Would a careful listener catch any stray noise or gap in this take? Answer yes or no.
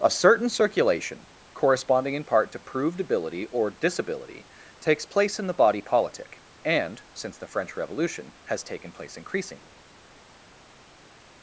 no